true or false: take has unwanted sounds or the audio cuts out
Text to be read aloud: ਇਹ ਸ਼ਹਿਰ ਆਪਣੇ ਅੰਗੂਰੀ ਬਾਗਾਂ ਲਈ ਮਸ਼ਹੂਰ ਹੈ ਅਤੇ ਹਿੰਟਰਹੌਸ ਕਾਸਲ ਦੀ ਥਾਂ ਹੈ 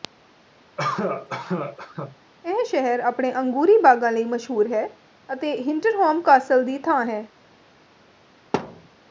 true